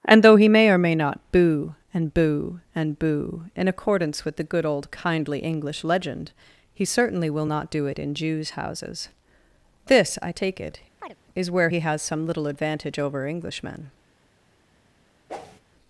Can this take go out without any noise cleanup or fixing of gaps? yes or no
no